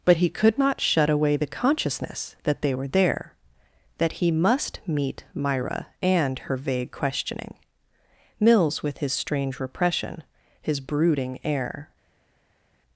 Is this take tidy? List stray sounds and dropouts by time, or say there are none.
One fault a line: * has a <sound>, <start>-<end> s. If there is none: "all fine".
all fine